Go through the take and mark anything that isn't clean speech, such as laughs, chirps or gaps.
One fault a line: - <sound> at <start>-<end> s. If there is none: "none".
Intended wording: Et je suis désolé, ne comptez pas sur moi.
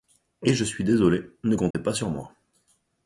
- dropout at 1.7-1.7 s